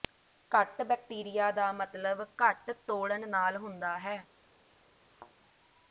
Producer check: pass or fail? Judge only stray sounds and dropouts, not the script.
fail